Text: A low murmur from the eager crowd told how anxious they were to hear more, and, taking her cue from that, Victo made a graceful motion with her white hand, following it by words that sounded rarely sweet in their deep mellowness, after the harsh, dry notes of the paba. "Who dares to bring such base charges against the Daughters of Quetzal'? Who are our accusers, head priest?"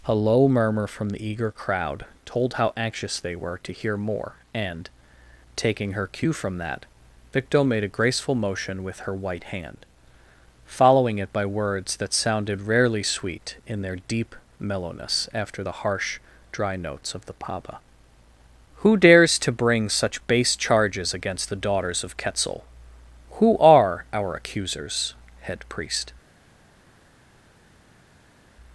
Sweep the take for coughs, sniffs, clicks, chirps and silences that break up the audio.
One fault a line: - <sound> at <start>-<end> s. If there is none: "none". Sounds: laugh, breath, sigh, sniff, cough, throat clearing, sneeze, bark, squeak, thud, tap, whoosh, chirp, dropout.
none